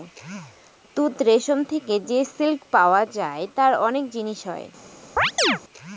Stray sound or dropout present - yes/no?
yes